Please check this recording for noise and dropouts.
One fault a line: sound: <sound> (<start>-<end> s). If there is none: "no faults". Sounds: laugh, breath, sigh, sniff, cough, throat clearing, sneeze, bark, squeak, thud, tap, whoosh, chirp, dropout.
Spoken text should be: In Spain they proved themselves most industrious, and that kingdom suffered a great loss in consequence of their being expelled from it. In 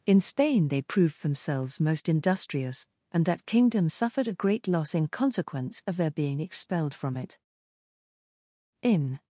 no faults